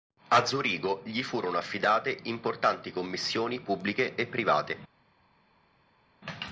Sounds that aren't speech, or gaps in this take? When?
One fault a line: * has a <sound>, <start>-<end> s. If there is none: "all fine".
all fine